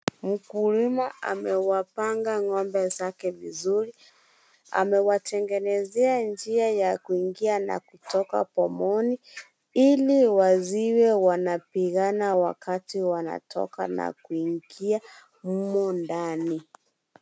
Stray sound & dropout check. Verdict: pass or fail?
pass